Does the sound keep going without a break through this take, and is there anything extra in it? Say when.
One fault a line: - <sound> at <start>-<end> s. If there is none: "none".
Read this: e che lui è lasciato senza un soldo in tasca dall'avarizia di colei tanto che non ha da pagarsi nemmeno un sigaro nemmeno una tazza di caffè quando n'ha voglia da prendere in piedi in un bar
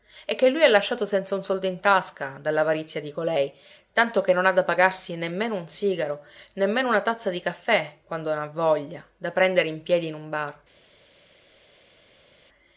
none